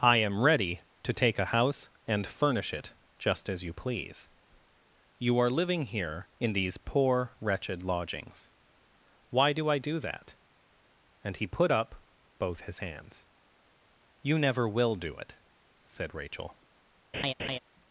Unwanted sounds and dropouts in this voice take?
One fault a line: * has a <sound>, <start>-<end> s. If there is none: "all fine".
* has a laugh, 17.1-17.6 s